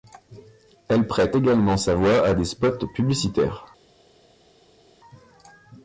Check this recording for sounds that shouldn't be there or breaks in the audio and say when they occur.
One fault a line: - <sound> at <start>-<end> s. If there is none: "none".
none